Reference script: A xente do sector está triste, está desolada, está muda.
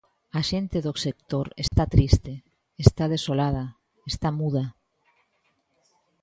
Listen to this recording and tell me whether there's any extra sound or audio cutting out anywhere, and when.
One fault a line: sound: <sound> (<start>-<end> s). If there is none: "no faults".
sound: dropout (1.7-1.7 s)